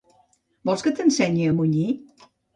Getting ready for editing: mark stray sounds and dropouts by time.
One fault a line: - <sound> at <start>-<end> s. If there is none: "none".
none